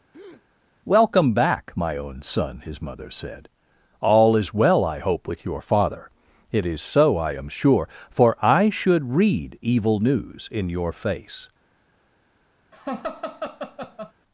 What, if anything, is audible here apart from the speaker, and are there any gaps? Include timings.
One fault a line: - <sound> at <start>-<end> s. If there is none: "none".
- breath at 0.1-0.5 s
- laugh at 12.7-14.1 s